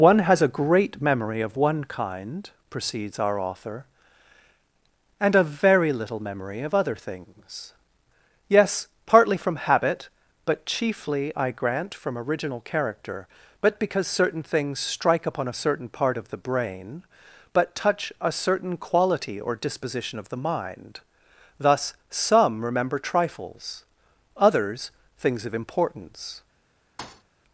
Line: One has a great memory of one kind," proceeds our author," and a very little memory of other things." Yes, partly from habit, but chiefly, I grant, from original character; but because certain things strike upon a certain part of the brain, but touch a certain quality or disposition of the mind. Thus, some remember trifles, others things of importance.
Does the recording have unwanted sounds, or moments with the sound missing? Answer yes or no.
yes